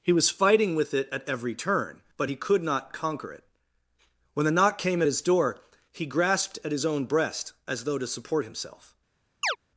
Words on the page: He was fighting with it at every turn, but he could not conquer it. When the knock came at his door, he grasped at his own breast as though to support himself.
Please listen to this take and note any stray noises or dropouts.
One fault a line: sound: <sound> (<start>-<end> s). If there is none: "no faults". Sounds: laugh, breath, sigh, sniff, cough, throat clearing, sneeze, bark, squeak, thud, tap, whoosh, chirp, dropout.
sound: chirp (9.4-9.6 s)